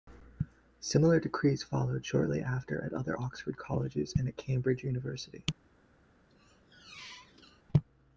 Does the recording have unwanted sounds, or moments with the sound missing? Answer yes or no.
yes